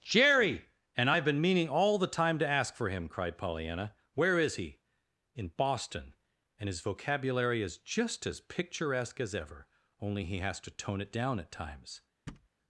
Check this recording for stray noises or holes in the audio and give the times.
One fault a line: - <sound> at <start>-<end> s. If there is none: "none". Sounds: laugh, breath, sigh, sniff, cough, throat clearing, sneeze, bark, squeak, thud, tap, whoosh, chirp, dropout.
- thud at 12.3-12.5 s